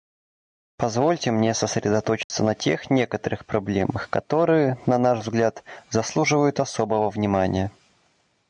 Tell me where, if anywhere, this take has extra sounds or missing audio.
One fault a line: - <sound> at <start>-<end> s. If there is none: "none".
- dropout at 2.2-2.3 s